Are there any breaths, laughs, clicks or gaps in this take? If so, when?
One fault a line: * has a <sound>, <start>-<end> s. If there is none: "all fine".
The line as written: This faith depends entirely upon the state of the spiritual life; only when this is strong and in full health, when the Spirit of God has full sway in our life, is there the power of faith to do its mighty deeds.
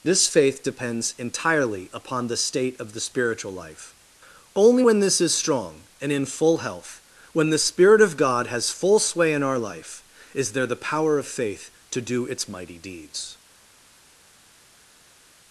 all fine